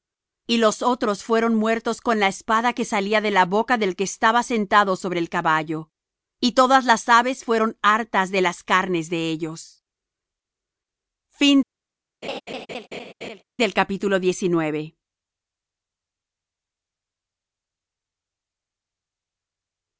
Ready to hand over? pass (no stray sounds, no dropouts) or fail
fail